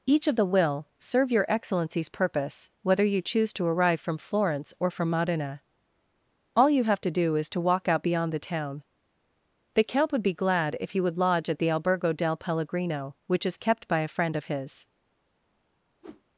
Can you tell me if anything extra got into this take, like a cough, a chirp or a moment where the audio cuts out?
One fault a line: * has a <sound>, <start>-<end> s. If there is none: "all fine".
* has a whoosh, 16.0-16.2 s